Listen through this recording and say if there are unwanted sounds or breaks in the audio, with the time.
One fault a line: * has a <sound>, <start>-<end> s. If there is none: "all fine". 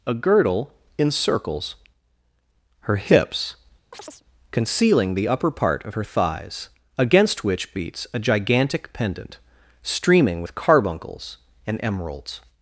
* has a chirp, 3.9-4.2 s